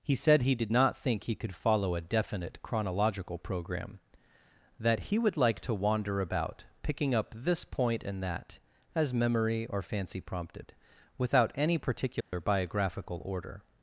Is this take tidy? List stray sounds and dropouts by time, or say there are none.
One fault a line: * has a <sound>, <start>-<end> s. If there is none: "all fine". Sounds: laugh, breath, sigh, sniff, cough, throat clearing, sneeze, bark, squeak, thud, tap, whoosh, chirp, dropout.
* has a dropout, 12.2-12.3 s